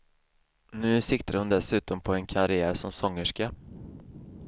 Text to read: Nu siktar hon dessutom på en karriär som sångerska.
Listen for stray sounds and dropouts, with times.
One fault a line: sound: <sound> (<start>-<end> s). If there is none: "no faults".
no faults